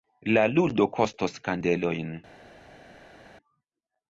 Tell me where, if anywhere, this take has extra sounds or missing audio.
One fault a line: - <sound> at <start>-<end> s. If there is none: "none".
none